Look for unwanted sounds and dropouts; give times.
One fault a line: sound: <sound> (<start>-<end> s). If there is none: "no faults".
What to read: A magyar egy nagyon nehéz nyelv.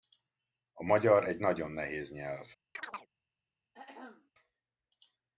sound: chirp (2.7-3.1 s)
sound: throat clearing (3.7-4.3 s)